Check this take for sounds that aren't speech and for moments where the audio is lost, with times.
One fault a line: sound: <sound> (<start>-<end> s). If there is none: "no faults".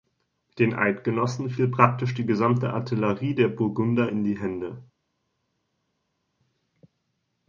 no faults